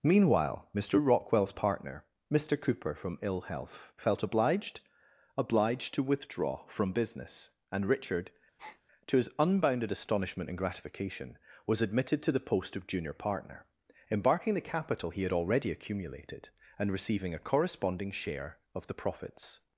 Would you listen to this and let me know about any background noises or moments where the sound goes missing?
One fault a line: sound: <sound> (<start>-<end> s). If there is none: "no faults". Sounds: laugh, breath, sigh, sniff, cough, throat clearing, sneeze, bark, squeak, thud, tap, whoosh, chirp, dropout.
sound: breath (8.6-8.8 s)